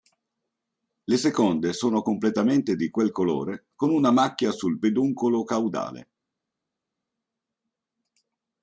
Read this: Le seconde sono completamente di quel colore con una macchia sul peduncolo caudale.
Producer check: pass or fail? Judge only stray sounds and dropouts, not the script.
pass